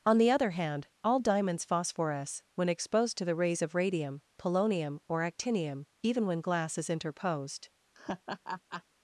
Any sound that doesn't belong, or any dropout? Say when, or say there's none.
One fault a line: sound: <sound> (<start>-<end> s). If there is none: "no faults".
sound: laugh (7.9-8.8 s)